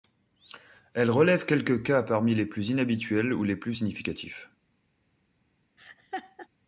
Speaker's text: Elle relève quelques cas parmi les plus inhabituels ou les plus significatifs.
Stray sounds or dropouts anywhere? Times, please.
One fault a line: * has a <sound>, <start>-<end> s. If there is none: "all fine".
* has a laugh, 5.8-6.5 s